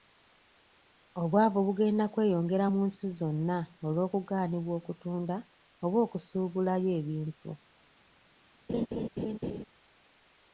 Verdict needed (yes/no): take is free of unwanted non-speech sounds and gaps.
no